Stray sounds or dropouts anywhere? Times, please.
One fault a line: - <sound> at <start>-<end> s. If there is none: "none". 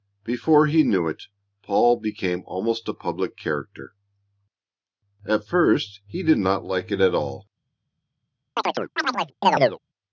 - chirp at 8.6-9.8 s